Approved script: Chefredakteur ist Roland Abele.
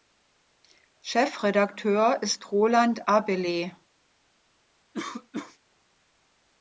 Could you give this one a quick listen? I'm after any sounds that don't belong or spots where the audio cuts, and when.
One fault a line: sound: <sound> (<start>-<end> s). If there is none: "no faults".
sound: cough (4.9-5.6 s)